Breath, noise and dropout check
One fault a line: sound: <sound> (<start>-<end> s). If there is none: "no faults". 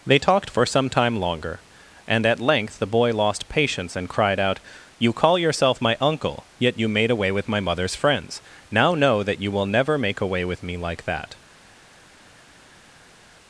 no faults